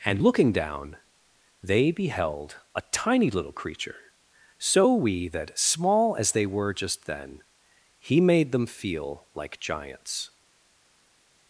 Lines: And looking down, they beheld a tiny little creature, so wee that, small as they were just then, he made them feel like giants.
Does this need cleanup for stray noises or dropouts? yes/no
no